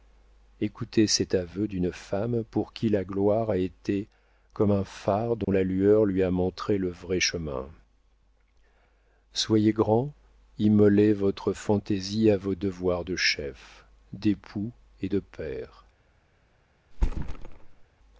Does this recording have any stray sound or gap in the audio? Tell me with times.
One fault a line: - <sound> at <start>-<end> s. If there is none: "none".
- dropout at 5.4-5.5 s
- thud at 16.9-17.9 s